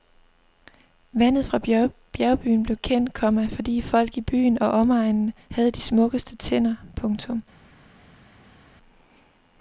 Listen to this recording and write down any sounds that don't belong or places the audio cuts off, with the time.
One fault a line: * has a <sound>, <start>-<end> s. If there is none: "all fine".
all fine